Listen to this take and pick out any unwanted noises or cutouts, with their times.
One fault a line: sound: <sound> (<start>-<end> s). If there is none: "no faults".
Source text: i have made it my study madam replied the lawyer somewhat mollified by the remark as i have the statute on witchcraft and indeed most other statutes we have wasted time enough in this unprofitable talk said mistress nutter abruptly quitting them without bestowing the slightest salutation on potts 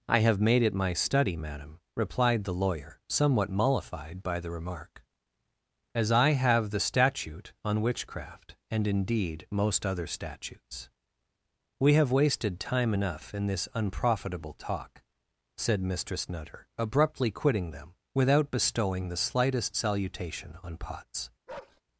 sound: bark (21.5-21.8 s)